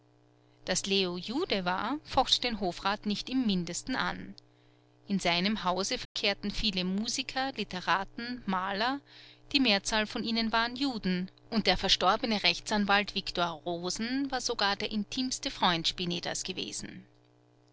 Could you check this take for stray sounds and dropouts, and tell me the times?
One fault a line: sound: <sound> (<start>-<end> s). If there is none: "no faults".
sound: dropout (6.0-6.2 s)